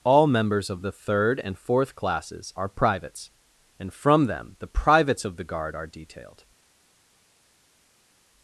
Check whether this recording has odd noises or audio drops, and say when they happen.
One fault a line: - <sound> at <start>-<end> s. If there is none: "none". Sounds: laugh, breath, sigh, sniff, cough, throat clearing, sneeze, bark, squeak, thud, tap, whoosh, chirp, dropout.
none